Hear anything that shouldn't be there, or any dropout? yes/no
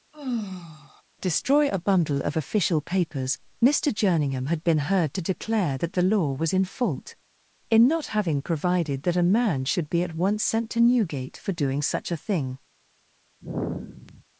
yes